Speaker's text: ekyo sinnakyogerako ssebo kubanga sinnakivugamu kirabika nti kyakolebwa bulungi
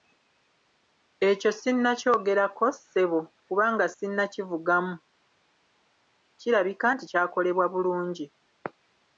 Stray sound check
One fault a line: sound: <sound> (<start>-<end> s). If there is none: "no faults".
no faults